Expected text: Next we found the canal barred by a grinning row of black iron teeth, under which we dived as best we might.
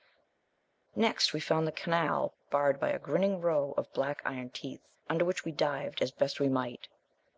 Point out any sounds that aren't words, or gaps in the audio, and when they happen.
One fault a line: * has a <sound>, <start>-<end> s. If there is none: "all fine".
all fine